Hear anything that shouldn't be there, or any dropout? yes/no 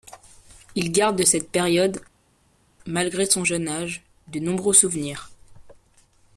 no